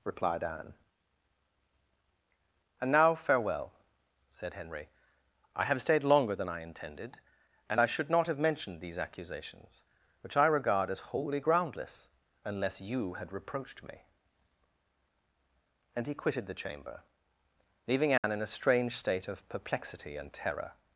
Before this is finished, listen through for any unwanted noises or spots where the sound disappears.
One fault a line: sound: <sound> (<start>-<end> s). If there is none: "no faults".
sound: dropout (18.2-18.2 s)